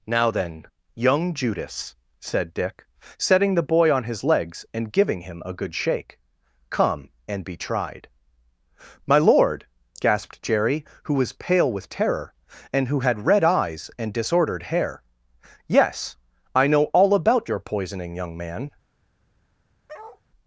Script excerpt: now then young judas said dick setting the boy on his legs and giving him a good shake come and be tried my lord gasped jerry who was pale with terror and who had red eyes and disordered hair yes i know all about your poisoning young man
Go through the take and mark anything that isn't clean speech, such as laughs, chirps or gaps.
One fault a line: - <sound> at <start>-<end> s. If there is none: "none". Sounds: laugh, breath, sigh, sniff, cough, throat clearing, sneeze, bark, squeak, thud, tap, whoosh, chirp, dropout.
- bark at 19.9-20.2 s